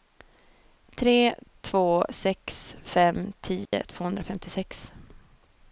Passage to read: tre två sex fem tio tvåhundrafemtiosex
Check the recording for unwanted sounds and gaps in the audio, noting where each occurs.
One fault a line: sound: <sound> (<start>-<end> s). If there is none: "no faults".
sound: dropout (3.6-3.7 s)